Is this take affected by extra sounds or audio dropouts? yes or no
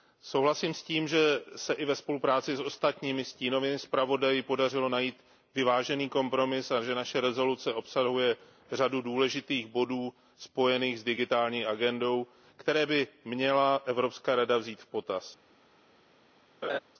yes